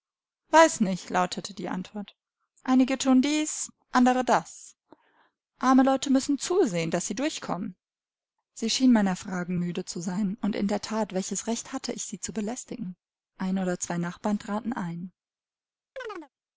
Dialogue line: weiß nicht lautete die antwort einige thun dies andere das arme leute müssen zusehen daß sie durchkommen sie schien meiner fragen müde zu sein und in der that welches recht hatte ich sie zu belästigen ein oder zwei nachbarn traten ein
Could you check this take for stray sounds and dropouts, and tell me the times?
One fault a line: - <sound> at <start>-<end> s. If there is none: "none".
- chirp at 16.0-16.3 s